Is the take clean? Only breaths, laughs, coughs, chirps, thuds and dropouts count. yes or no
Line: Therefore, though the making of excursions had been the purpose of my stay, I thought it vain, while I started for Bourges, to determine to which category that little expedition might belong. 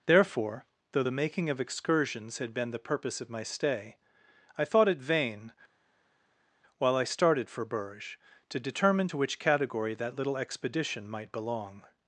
yes